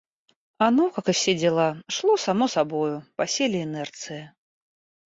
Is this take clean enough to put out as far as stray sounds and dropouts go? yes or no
yes